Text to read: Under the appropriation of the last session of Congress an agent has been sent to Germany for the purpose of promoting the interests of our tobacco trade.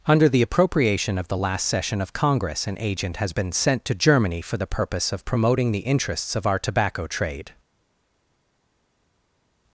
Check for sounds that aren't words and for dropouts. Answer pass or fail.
pass